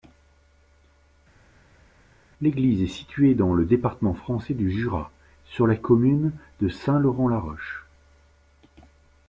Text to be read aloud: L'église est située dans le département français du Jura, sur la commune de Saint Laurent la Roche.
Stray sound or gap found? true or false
false